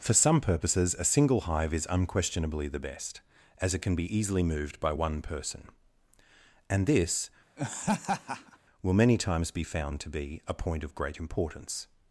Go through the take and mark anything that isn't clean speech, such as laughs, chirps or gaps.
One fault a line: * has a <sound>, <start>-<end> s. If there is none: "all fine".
* has a laugh, 7.6-8.6 s